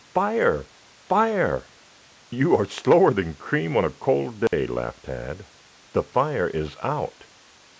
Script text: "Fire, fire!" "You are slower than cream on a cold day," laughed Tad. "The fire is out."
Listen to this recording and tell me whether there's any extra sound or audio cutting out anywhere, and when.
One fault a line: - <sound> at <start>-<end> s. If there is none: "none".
- dropout at 4.5-4.5 s